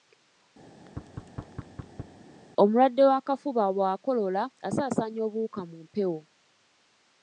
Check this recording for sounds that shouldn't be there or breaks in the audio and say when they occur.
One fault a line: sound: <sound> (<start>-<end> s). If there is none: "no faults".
sound: thud (0.7-2.2 s)